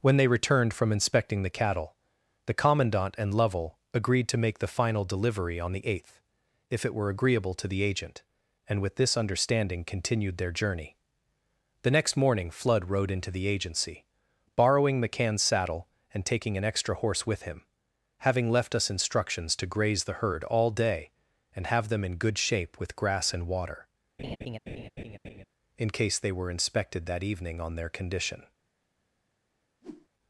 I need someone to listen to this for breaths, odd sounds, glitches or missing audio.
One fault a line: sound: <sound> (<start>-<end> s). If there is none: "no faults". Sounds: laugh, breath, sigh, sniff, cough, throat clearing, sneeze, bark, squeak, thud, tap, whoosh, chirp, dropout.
sound: laugh (24.2-25.4 s)
sound: whoosh (29.8-30.1 s)